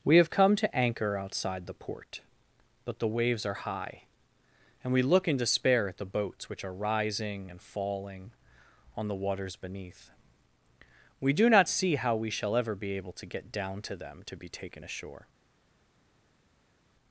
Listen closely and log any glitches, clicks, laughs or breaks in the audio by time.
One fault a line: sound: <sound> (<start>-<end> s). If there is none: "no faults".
no faults